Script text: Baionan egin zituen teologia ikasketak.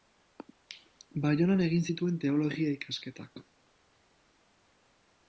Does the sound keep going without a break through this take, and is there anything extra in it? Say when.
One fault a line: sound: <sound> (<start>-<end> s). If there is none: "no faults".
no faults